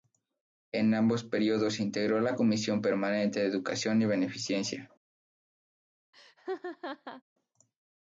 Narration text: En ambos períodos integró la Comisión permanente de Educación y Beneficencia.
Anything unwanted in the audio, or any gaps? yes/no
yes